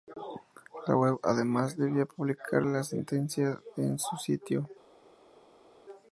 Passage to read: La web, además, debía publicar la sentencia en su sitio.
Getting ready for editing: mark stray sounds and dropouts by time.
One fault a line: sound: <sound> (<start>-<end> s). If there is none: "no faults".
no faults